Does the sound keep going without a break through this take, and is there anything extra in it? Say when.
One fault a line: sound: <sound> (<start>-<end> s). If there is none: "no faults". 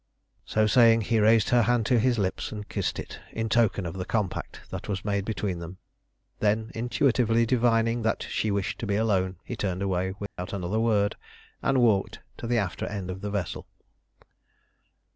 sound: dropout (10.3-10.4 s)